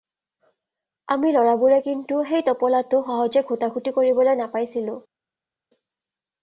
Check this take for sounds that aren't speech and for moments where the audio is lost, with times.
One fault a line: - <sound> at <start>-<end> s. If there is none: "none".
none